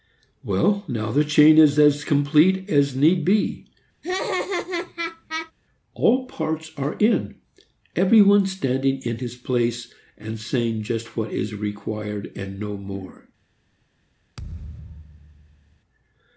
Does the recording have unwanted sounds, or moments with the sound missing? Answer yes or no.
yes